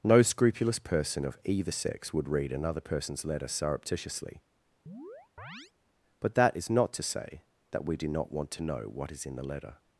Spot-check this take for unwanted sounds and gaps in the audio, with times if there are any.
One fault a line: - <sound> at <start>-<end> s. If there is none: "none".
- chirp at 4.9-5.7 s